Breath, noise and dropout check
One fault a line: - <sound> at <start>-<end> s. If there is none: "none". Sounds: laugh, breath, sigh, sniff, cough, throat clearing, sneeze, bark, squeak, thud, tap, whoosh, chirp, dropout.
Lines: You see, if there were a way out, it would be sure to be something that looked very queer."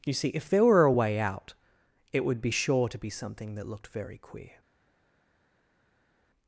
none